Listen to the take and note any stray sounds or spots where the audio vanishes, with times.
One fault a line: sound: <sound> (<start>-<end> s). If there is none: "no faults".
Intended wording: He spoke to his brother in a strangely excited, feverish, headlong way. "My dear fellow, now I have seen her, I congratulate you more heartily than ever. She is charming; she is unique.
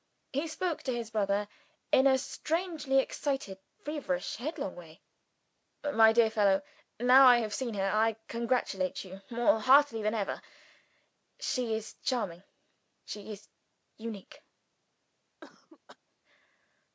sound: cough (15.4-16.0 s)